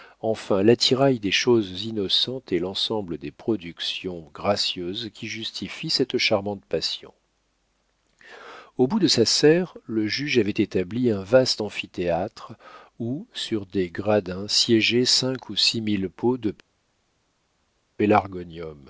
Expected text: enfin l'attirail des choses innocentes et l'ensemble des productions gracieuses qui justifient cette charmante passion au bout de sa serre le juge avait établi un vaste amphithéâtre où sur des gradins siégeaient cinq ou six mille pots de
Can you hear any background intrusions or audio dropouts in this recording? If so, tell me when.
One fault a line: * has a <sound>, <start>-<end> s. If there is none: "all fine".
all fine